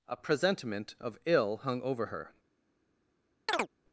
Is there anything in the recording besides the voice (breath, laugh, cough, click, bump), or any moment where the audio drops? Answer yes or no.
yes